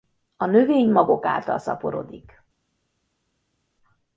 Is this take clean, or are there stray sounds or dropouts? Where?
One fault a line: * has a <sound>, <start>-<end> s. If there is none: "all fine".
all fine